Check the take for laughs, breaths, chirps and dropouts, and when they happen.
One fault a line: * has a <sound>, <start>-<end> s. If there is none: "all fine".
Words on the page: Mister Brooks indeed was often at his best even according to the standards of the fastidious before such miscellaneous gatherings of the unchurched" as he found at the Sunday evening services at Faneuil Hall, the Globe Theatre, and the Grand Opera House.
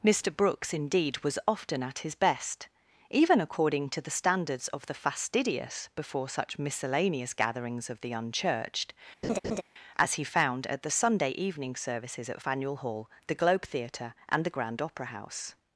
* has a laugh, 9.2-9.6 s